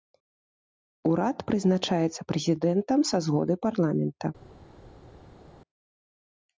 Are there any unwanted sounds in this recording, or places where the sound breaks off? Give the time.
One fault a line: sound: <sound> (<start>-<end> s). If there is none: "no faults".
no faults